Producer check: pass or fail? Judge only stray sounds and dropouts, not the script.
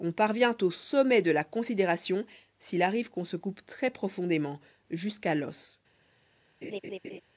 fail